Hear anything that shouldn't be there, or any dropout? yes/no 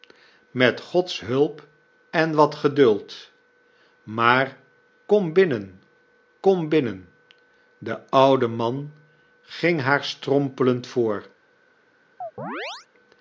yes